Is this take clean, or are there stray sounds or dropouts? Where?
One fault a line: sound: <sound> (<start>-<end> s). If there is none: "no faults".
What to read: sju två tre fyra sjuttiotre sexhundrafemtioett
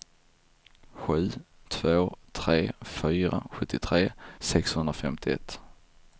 no faults